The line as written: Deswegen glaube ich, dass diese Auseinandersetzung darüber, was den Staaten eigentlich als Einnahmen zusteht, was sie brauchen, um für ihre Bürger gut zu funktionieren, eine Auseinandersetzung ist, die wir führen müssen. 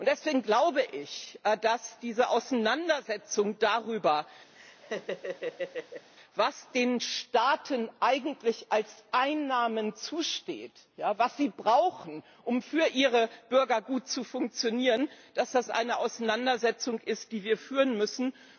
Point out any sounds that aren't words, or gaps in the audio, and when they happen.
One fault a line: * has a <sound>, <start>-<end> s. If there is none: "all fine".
* has a laugh, 4.5-6.1 s